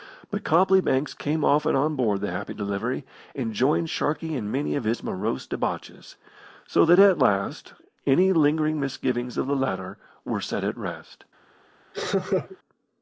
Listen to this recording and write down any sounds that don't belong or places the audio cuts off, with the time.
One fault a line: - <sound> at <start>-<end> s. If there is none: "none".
- laugh at 11.9-12.6 s